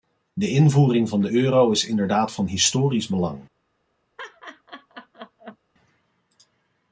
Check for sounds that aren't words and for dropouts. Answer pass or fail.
fail